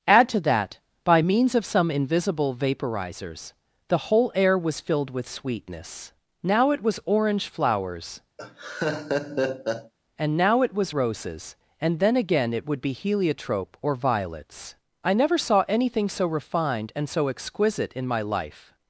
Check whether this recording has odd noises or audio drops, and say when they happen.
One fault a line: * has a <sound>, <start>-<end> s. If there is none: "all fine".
* has a laugh, 8.4-9.9 s